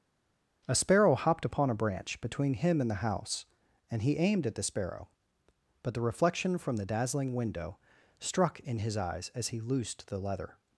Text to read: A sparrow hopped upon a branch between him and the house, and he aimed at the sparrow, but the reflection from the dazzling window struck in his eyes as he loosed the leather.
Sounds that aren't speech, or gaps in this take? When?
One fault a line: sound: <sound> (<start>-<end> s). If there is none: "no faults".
no faults